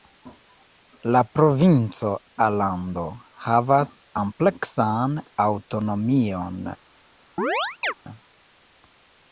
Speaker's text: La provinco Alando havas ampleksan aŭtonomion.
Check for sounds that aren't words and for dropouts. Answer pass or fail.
fail